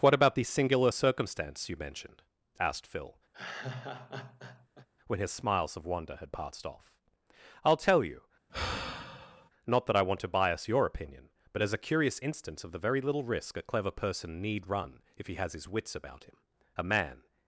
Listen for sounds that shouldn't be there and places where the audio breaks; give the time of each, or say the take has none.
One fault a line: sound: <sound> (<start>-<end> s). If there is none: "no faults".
sound: laugh (3.3-4.9 s)
sound: sigh (8.5-9.5 s)